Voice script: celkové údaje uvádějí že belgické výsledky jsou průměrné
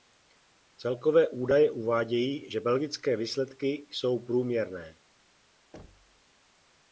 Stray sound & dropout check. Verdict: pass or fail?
fail